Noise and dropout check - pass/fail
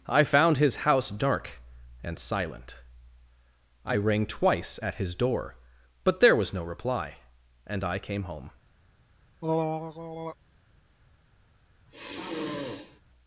fail